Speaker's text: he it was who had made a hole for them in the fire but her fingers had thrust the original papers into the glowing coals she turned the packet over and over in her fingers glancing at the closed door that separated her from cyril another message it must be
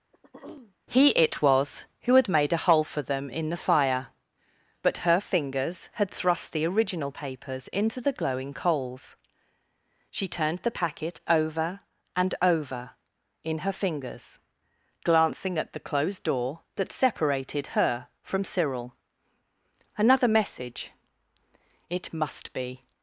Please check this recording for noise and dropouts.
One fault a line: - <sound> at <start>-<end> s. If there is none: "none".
- throat clearing at 0.1-0.8 s